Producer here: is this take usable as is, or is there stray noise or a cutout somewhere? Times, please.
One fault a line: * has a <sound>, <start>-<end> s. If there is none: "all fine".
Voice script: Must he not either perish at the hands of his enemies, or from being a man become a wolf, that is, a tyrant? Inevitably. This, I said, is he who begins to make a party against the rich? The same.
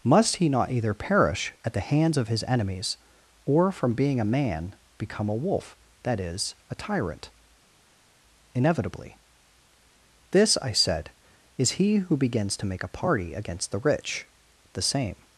all fine